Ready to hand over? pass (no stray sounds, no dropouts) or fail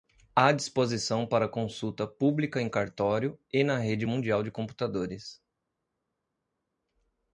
pass